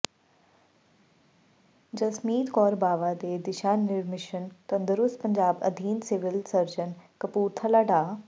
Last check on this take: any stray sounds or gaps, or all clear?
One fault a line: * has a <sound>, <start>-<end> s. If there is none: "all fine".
all fine